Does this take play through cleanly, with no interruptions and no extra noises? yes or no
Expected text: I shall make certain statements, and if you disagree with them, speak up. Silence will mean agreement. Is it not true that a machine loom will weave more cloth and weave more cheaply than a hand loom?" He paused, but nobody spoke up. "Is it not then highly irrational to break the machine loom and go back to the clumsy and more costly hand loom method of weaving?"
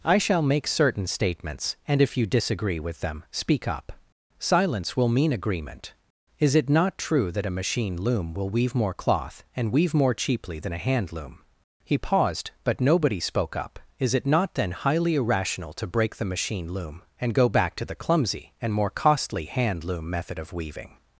yes